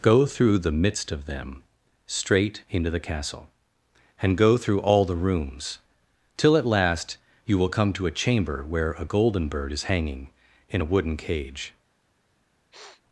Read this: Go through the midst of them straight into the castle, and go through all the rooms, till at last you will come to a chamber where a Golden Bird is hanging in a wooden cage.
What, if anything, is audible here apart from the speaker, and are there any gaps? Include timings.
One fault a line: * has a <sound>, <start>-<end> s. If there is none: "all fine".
* has a sniff, 12.7-13.0 s